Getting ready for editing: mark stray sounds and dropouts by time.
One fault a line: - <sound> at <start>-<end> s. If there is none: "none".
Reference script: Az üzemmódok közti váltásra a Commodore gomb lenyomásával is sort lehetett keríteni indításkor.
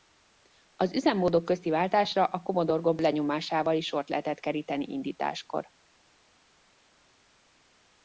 none